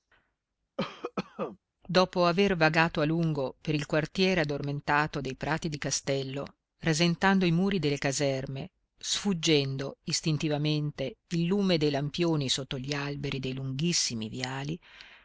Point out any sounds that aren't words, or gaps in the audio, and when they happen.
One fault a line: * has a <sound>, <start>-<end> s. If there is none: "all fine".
* has a cough, 0.8-1.6 s